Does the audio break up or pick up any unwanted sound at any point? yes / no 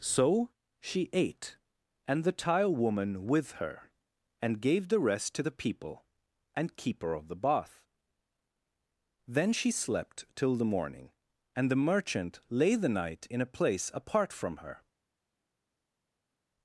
no